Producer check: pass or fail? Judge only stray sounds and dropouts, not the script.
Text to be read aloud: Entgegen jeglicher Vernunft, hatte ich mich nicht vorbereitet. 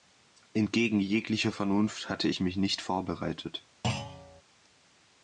fail